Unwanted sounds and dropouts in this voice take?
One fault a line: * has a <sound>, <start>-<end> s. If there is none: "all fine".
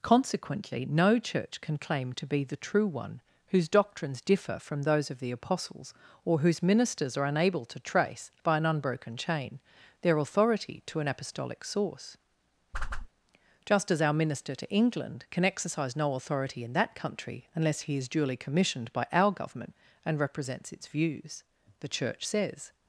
* has a whoosh, 12.7-13.1 s